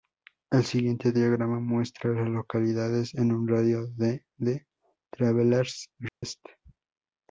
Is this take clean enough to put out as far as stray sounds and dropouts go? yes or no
no